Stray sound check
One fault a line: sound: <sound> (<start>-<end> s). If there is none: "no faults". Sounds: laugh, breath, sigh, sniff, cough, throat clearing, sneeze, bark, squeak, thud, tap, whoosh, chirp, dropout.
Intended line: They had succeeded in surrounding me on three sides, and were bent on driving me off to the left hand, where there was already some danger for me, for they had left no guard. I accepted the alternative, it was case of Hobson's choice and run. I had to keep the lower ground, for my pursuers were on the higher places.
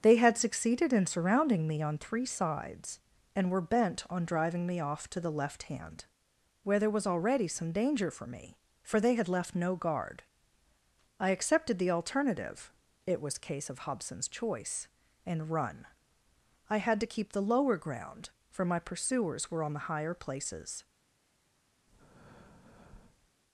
sound: breath (21.9-23.3 s)